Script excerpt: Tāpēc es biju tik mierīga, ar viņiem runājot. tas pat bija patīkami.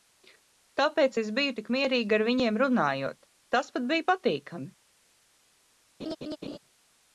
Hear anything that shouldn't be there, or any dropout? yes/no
yes